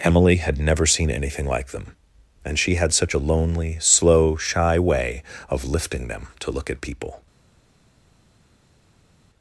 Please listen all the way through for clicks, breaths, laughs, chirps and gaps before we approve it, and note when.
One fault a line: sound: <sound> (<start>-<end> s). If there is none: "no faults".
no faults